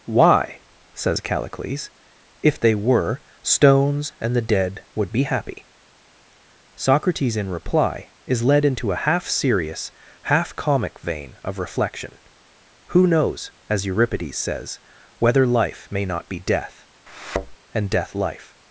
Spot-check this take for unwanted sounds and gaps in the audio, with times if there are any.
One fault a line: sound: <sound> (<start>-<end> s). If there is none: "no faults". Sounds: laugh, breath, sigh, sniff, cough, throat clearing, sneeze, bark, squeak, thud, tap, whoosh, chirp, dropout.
sound: thud (17.1-17.6 s)